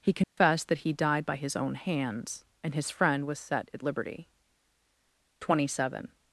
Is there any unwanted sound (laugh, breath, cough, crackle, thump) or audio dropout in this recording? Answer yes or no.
yes